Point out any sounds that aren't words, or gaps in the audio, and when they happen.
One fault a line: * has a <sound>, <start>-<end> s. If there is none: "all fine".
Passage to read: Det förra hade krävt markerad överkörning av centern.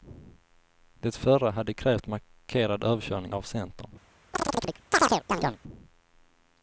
* has a chirp, 4.3-5.6 s